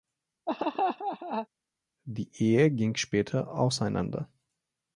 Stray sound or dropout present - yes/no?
yes